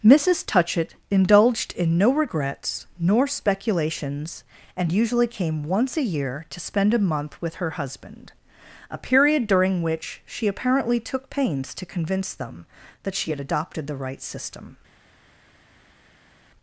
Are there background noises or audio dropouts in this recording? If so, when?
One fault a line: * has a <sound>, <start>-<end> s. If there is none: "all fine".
all fine